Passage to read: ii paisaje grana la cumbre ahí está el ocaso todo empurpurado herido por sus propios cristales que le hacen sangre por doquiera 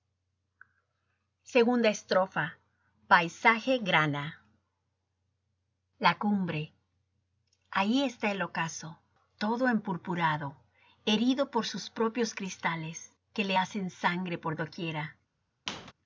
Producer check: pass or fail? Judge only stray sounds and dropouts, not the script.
fail